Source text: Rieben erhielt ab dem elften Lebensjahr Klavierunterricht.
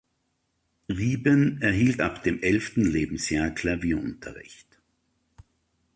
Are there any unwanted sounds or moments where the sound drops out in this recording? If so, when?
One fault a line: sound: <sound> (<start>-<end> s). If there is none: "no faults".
no faults